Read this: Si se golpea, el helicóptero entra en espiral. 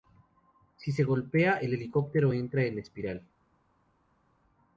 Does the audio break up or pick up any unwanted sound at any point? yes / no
no